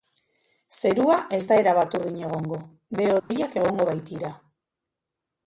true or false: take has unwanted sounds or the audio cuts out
true